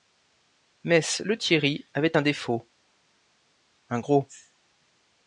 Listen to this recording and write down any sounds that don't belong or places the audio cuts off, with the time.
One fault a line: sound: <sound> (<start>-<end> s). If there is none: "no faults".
no faults